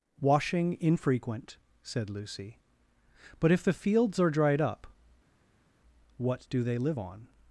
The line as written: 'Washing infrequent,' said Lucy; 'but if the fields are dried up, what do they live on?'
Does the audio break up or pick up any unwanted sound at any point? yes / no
no